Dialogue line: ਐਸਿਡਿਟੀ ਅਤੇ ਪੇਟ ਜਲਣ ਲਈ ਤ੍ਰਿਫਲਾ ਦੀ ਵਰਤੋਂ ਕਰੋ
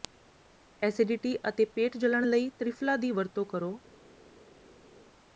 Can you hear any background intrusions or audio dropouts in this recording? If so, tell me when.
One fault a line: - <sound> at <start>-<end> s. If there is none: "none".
none